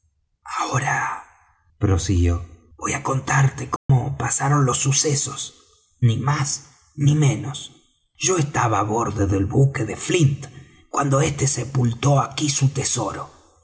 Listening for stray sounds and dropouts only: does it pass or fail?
fail